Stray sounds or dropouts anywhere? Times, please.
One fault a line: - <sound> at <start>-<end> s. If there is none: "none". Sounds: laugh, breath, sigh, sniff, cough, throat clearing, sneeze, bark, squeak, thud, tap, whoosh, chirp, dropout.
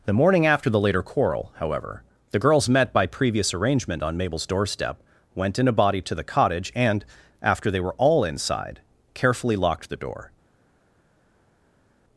none